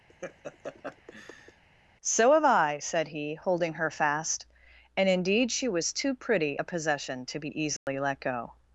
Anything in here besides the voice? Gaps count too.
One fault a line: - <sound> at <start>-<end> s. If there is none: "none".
- laugh at 0.1-1.6 s
- dropout at 7.8-7.9 s